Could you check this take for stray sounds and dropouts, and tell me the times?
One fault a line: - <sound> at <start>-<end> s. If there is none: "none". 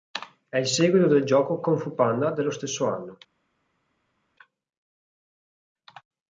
none